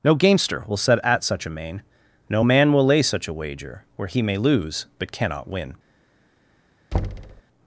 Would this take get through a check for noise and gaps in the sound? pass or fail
fail